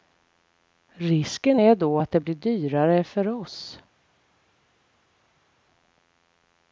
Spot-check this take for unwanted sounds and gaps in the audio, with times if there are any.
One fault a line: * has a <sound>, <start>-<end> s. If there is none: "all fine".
all fine